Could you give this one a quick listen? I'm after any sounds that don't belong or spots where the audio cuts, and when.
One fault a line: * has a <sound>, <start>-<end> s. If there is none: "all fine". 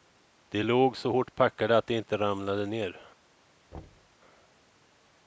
* has a thud, 3.7-4.2 s